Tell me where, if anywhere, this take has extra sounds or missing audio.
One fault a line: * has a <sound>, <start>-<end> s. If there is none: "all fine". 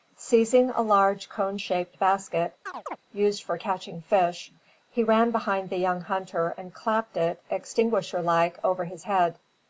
* has a chirp, 2.7-3.0 s